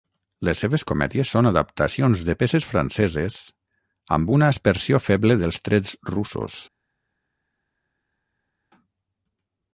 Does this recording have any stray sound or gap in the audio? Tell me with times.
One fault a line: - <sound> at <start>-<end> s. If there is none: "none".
none